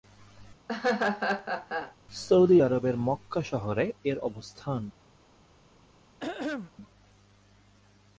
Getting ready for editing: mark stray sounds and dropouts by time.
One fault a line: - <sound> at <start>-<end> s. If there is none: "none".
- laugh at 0.7-1.9 s
- throat clearing at 6.2-6.7 s